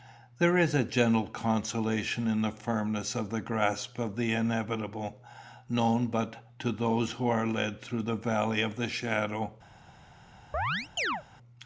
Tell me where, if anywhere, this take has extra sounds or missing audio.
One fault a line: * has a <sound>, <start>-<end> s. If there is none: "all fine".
* has a chirp, 10.5-11.2 s